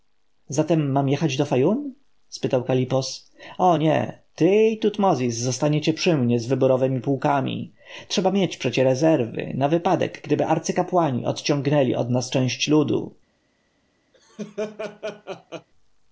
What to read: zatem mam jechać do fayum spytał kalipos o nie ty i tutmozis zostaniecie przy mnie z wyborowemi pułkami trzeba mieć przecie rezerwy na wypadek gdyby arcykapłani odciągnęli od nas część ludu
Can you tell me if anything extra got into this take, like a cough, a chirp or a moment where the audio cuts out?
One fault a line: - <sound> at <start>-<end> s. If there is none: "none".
- laugh at 14.1-15.7 s